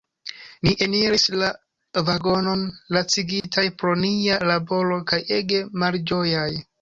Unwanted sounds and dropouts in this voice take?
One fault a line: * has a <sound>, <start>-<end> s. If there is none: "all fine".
* has a dropout, 3.4-3.4 s